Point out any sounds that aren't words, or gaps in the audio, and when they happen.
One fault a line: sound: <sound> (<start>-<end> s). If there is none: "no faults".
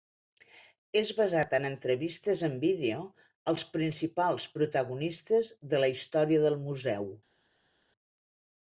no faults